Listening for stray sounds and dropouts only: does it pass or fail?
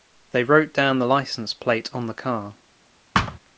fail